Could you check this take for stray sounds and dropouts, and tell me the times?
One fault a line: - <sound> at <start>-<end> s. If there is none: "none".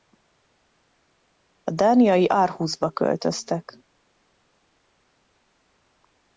none